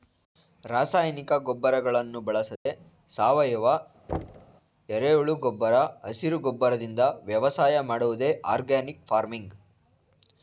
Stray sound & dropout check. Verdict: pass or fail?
fail